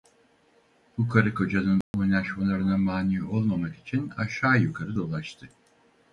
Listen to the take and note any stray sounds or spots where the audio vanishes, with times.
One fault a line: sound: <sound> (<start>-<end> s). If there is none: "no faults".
sound: dropout (1.8-1.9 s)